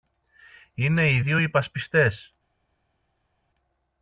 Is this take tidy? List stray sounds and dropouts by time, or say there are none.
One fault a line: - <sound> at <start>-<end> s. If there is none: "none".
none